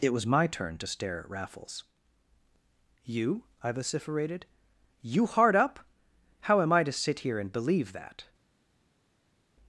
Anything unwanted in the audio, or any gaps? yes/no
no